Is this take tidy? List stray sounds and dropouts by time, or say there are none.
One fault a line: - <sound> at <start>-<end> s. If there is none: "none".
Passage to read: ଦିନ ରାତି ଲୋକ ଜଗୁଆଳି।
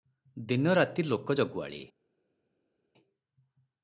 none